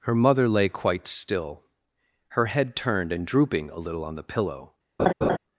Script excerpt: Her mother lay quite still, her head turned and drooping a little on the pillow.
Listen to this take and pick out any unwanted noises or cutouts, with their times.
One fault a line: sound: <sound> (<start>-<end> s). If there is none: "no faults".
sound: laugh (5.0-5.4 s)